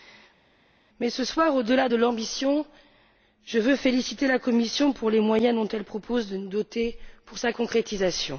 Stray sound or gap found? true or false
false